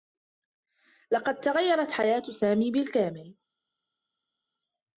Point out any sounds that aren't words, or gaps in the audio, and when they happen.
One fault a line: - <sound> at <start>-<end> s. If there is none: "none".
none